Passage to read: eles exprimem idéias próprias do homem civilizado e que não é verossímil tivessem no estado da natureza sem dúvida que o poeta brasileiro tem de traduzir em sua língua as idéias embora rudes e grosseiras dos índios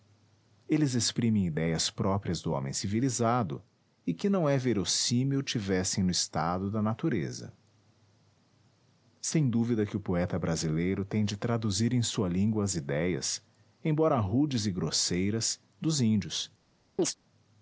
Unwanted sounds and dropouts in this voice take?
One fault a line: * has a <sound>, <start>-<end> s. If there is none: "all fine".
* has a chirp, 17.0-17.2 s